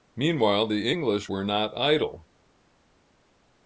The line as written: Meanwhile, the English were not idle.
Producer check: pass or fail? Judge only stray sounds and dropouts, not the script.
pass